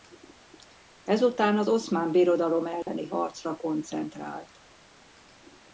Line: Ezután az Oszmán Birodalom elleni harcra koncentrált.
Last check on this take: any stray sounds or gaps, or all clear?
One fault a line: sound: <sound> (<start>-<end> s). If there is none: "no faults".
sound: dropout (2.8-2.9 s)